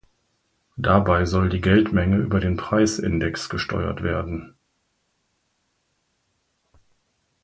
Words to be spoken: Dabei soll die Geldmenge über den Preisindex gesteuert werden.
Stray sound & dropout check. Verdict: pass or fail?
pass